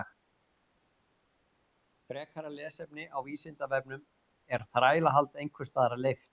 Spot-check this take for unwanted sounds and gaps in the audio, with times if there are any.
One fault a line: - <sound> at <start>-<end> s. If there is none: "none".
none